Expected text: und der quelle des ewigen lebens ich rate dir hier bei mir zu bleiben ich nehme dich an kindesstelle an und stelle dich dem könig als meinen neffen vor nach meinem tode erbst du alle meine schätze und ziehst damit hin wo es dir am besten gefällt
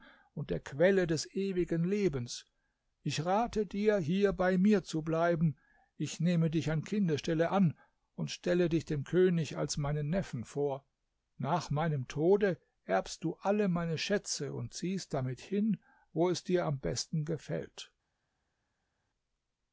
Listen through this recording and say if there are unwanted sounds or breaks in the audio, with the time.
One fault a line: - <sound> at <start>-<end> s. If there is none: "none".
none